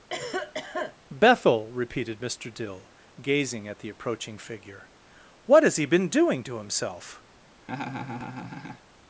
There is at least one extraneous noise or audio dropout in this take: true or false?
true